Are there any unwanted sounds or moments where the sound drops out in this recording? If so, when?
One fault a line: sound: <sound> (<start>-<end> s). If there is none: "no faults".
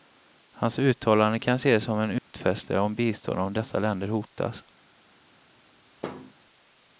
sound: dropout (2.2-2.3 s)
sound: thud (6.0-6.3 s)